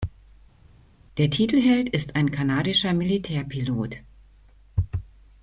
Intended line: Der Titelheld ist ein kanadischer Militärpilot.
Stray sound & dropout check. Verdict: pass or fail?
pass